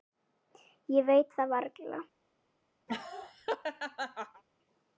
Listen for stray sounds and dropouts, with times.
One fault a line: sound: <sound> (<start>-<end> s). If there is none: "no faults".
sound: laugh (2.9-4.4 s)